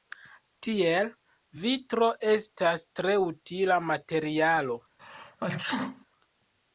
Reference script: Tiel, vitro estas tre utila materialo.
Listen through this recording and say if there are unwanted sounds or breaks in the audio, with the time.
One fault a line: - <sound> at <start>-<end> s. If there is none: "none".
- sneeze at 5.0-6.1 s